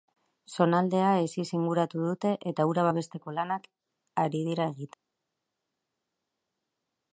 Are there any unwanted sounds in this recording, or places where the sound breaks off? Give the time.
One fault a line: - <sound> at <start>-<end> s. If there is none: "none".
none